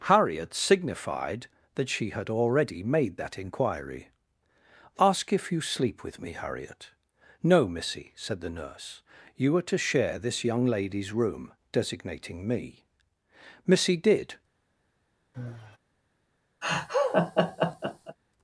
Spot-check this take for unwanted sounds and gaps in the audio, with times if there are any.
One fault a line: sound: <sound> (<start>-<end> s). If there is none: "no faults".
sound: sigh (15.3-15.8 s)
sound: laugh (16.6-18.2 s)